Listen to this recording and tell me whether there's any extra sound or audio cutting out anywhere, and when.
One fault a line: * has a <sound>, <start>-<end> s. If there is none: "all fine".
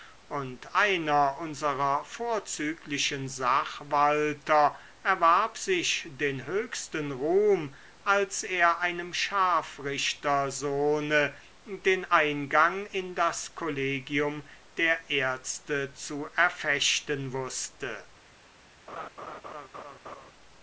* has a laugh, 18.9-20.3 s